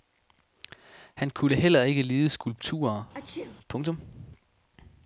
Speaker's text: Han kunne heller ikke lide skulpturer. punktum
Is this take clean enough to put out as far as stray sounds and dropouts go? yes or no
no